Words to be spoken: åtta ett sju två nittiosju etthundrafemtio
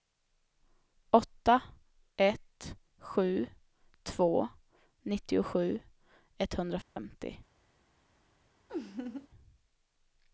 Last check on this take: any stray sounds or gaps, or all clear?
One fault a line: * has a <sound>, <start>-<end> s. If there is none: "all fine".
* has a dropout, 6.8-7.0 s
* has a laugh, 8.7-9.3 s